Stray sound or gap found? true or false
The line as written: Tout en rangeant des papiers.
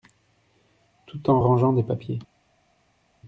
false